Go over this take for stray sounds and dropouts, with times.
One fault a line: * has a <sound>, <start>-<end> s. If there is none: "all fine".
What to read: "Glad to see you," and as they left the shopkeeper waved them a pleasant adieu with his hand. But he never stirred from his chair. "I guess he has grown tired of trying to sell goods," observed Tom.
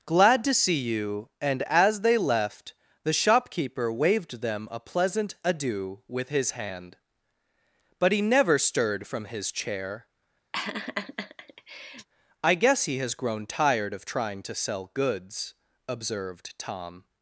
* has a laugh, 10.5-12.1 s